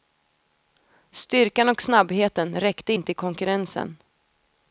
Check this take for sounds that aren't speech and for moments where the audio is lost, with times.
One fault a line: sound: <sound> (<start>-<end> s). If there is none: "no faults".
no faults